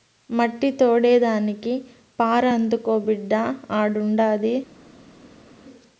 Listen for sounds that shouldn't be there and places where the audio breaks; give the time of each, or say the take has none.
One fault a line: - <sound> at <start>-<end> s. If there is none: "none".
none